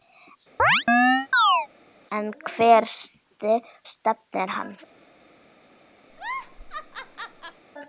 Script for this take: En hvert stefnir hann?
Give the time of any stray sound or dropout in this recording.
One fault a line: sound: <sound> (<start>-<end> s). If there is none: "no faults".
sound: chirp (0.6-1.7 s)
sound: laugh (6.1-7.6 s)